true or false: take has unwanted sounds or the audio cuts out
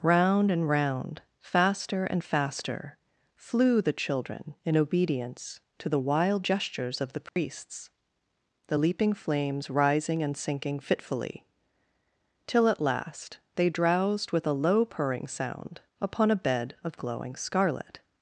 true